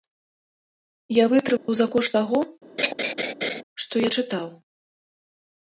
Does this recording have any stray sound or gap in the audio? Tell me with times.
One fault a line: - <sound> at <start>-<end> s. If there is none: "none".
- dropout at 1.6-1.7 s
- laugh at 2.8-3.6 s